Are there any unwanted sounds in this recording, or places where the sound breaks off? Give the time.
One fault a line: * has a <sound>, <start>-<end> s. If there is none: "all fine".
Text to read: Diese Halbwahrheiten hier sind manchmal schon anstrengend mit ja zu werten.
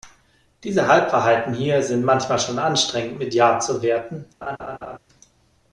* has a laugh, 4.4-5.0 s